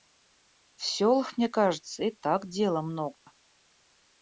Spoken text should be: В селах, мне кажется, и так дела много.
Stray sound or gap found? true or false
true